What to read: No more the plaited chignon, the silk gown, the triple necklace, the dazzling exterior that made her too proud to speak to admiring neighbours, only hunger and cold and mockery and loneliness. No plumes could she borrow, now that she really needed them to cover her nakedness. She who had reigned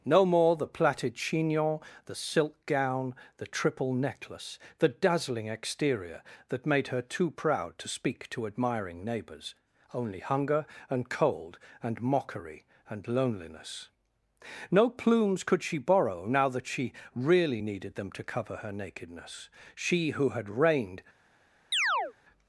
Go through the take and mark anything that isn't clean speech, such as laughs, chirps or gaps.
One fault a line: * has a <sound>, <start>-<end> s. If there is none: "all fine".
* has a chirp, 21.7-22.1 s